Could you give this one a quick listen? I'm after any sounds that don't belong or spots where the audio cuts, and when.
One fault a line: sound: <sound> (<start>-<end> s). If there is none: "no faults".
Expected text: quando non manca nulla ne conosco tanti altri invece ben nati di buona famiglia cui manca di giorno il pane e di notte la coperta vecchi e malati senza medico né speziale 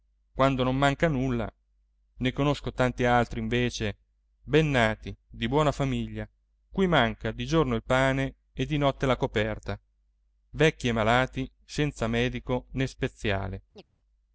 sound: chirp (13.7-13.8 s)